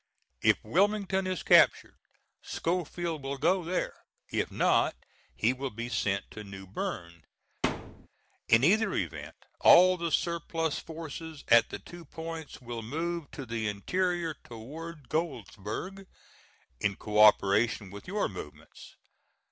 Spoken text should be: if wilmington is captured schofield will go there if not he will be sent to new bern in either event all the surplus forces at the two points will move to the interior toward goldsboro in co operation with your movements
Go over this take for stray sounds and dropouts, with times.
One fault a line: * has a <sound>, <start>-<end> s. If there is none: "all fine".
* has a thud, 7.6-8.1 s